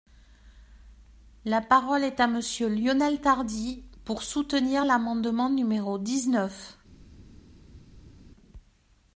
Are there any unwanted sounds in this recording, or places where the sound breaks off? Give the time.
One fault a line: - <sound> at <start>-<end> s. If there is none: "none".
none